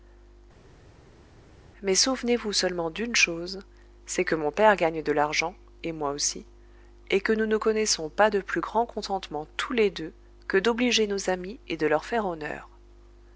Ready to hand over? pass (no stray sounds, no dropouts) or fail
pass